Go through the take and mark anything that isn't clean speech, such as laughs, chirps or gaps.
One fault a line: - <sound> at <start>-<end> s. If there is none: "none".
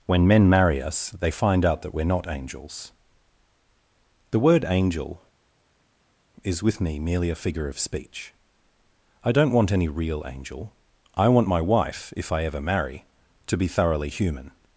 none